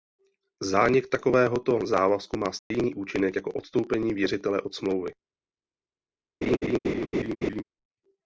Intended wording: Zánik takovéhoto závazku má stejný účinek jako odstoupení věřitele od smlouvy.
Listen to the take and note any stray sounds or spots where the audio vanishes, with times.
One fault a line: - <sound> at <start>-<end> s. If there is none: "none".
- dropout at 2.6-2.7 s
- laugh at 6.4-7.6 s